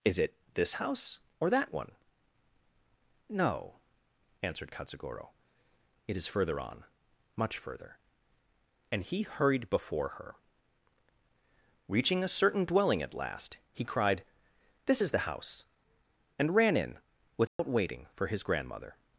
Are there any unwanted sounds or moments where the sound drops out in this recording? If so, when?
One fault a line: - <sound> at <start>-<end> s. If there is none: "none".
- dropout at 17.5-17.6 s